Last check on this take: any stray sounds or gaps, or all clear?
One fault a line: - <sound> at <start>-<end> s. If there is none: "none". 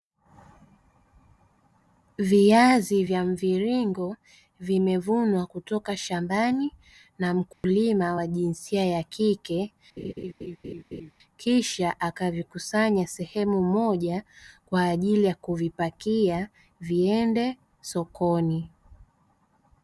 - dropout at 7.5-7.6 s
- laugh at 10.0-11.1 s